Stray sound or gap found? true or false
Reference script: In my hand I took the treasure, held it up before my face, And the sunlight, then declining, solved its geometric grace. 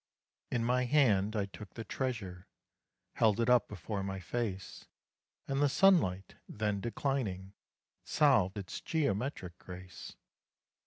false